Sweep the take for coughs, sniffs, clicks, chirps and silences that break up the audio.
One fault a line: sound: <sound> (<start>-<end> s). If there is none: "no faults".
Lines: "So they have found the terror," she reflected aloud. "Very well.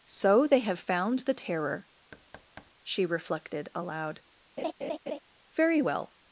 sound: thud (2.1-2.7 s)
sound: laugh (4.6-5.2 s)